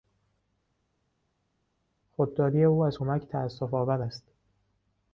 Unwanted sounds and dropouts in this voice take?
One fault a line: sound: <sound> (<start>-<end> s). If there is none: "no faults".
no faults